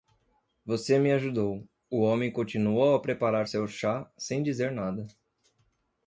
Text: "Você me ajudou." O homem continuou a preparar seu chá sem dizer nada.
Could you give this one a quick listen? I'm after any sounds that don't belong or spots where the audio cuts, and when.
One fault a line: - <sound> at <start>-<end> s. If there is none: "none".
none